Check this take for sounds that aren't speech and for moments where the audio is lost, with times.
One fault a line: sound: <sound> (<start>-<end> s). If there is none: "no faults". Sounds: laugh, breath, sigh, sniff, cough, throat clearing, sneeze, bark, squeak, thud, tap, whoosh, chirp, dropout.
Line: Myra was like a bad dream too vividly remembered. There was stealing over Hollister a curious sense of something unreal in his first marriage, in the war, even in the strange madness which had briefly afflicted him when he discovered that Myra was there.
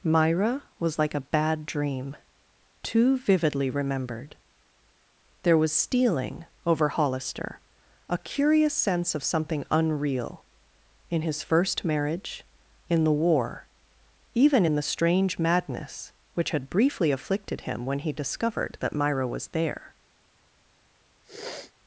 sound: sniff (21.2-21.7 s)